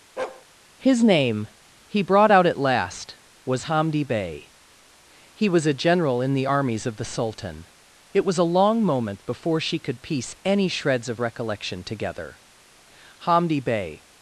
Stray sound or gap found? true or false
true